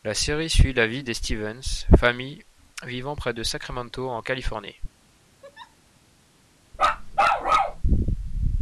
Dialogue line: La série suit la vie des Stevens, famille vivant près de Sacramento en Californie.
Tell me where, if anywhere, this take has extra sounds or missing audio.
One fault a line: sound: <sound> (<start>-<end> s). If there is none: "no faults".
sound: laugh (5.4-5.8 s)
sound: bark (6.7-7.8 s)